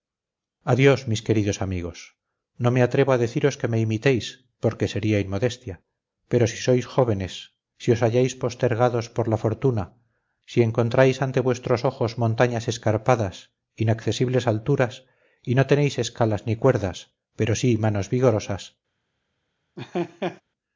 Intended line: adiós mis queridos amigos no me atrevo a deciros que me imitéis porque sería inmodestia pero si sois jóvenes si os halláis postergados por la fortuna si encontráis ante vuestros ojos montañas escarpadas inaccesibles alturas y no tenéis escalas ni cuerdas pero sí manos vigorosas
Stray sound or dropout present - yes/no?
yes